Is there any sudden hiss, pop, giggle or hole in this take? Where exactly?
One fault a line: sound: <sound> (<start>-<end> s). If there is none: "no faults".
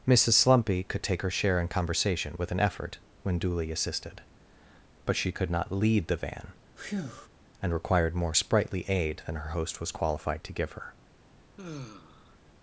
sound: breath (6.8-7.3 s)
sound: sigh (11.6-12.4 s)